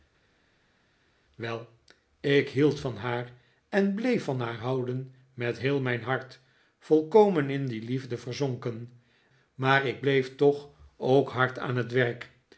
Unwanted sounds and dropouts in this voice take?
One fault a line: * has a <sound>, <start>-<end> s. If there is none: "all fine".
all fine